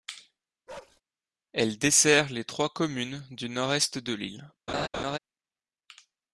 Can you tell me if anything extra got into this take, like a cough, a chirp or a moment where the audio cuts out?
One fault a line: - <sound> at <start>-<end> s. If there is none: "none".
- bark at 0.7-1.0 s
- laugh at 4.7-5.2 s